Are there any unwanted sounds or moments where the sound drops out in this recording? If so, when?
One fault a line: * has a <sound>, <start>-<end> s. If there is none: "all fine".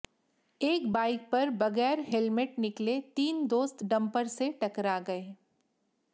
all fine